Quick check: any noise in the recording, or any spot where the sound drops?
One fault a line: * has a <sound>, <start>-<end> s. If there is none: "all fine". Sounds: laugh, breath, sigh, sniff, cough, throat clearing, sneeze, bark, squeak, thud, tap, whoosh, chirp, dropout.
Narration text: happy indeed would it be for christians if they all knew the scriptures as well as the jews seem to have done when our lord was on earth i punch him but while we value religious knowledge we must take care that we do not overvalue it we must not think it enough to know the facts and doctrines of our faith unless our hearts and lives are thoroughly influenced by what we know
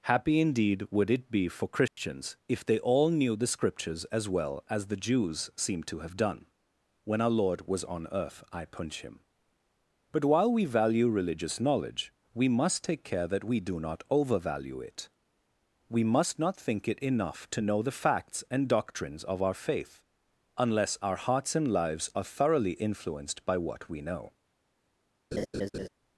* has a dropout, 1.9-2.0 s
* has a laugh, 25.3-25.9 s